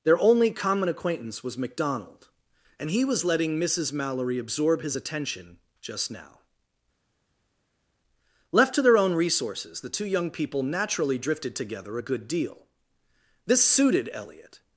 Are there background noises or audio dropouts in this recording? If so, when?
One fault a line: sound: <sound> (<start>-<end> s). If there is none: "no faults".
no faults